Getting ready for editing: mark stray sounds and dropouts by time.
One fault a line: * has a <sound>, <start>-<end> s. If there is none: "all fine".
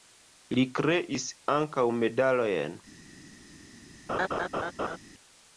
* has a laugh, 4.1-5.0 s